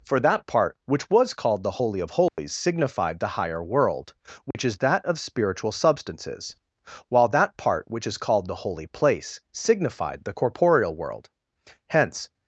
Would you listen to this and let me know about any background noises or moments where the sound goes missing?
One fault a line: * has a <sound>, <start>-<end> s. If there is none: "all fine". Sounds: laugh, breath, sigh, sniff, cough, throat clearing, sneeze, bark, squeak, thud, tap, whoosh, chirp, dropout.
* has a dropout, 2.3-2.4 s
* has a dropout, 4.5-4.5 s